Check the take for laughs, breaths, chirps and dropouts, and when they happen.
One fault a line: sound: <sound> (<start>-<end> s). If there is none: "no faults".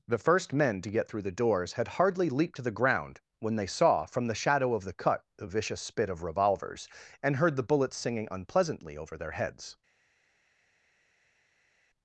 no faults